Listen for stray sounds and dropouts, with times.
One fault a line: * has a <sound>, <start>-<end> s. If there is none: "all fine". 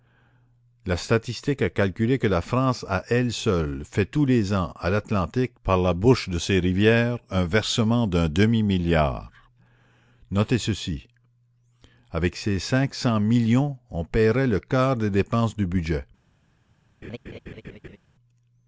* has a laugh, 17.0-18.0 s